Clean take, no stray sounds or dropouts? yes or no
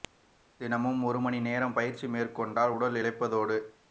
yes